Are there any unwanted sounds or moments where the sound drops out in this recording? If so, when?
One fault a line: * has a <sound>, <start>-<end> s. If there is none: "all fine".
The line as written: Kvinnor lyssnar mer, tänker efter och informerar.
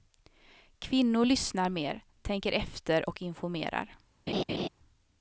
* has a laugh, 4.3-4.7 s